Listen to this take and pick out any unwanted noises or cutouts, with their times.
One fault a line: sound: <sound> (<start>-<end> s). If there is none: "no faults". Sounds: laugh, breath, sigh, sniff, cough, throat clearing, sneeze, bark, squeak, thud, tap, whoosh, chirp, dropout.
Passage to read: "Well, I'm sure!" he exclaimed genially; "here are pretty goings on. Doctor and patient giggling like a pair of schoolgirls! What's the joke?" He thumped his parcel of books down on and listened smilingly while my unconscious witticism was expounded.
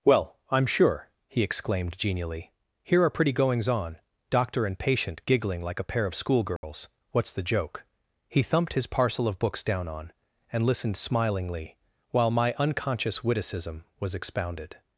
sound: dropout (6.6-6.6 s)